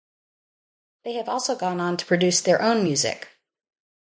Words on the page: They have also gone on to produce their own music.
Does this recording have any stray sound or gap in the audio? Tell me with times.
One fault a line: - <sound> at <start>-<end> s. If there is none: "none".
none